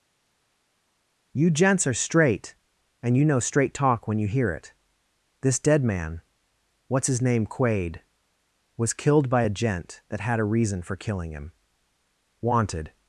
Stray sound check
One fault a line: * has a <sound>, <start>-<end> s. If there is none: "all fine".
all fine